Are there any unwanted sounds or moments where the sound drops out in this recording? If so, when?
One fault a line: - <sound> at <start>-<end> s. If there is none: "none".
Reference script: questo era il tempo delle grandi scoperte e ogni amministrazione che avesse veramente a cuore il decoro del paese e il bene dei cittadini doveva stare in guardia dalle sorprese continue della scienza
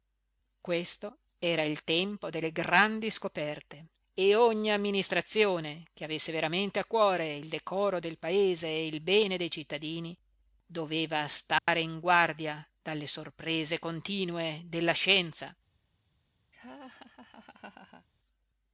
- dropout at 11.6-11.7 s
- laugh at 16.5-18.1 s